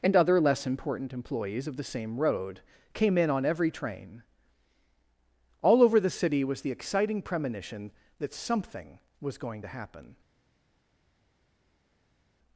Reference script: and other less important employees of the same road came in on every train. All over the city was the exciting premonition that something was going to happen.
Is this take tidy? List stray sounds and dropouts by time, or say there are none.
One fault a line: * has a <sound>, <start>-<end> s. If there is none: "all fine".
all fine